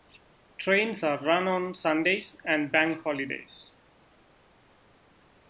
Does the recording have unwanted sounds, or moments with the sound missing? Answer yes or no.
no